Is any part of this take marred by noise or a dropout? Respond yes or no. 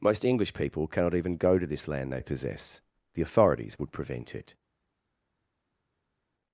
no